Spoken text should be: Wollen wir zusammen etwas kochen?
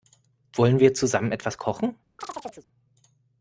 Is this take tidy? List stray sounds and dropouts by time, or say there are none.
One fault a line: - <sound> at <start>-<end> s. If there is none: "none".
- chirp at 2.2-2.7 s